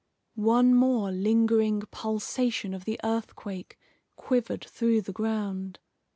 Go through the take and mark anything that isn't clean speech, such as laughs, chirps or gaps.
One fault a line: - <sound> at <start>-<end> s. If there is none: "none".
none